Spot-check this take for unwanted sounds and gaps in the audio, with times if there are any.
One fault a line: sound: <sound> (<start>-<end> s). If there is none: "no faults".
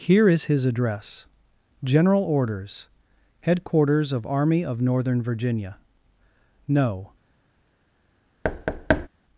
sound: thud (8.4-9.1 s)